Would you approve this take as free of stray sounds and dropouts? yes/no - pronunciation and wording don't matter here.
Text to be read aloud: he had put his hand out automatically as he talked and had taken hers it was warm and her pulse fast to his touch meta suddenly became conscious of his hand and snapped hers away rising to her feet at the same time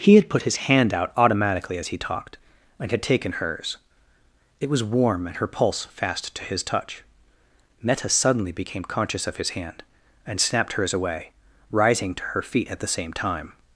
yes